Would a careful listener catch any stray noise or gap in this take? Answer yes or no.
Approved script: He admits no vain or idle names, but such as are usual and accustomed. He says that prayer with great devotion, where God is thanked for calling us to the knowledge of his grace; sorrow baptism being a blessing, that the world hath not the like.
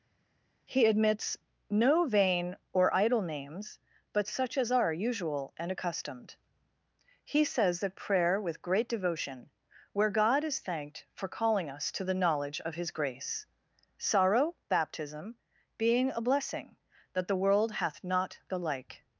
no